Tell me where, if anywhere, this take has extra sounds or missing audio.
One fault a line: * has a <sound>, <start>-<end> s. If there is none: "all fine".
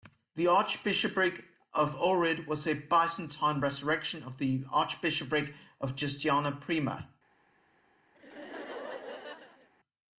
* has a laugh, 8.1-9.7 s